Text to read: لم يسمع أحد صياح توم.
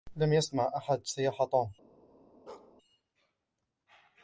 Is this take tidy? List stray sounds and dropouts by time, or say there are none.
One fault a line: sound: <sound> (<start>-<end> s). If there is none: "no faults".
sound: bark (2.5-2.8 s)